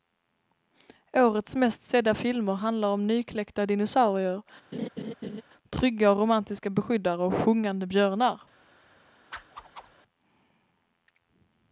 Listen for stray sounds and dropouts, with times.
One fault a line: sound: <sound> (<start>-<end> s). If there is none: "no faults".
sound: laugh (4.7-5.4 s)
sound: whoosh (9.3-10.0 s)